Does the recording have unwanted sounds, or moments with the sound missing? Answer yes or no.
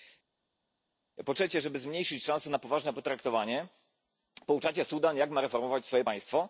no